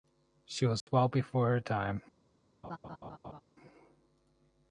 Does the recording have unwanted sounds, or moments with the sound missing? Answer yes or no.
yes